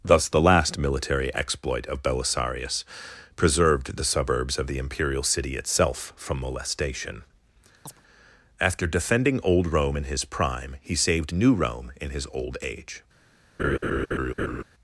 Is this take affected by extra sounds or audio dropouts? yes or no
yes